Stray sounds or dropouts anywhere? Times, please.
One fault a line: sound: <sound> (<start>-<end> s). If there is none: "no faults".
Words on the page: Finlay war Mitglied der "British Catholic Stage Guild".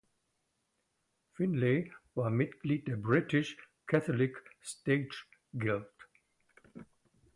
no faults